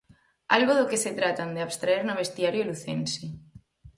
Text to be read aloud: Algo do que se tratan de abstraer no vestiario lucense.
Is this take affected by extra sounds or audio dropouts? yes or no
no